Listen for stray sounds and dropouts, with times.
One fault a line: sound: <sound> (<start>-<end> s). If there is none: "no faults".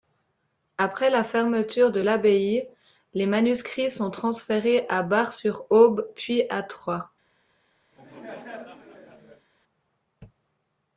sound: laugh (7.9-9.5 s)